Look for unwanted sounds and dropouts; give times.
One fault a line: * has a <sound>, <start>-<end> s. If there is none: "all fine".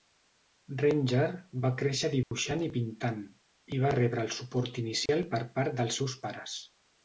* has a dropout, 2.2-2.3 s
* has a dropout, 5.1-5.1 s